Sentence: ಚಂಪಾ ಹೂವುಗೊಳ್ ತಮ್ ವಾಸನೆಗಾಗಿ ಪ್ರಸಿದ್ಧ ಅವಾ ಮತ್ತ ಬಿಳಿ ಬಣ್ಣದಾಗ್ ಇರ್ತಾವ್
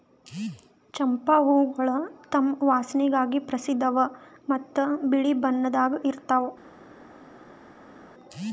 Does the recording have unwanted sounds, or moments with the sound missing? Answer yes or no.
no